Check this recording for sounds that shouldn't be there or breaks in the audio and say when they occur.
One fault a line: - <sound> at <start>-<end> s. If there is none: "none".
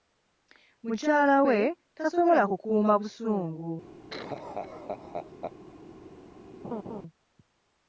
- laugh at 4.1-5.5 s
- laugh at 6.6-7.0 s